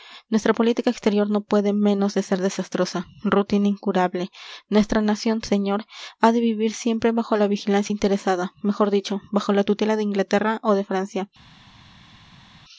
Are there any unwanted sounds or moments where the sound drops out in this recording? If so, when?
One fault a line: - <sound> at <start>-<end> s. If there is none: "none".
none